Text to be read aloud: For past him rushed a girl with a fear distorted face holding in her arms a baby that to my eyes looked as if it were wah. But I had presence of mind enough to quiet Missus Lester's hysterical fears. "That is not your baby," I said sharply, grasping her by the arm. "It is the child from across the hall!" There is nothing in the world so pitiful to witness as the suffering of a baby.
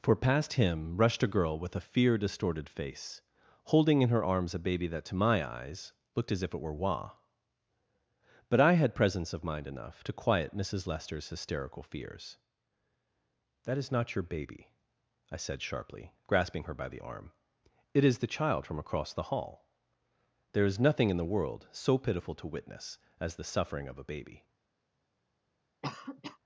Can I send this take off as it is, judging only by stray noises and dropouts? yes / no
no